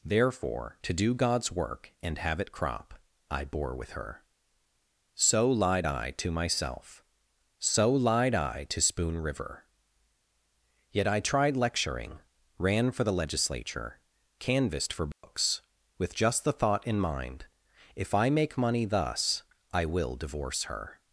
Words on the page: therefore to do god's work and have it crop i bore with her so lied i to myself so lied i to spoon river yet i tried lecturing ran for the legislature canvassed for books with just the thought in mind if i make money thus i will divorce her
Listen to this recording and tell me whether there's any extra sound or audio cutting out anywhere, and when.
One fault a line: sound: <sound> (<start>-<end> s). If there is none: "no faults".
sound: dropout (15.1-15.2 s)